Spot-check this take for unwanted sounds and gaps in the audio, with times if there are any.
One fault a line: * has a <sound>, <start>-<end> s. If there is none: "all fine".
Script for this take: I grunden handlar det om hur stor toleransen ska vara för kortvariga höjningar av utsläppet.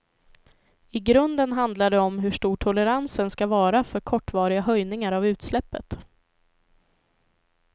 all fine